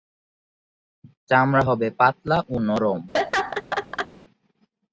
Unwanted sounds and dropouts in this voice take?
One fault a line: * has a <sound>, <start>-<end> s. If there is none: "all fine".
* has a laugh, 3.1-4.1 s